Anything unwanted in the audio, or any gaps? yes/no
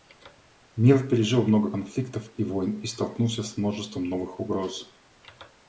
no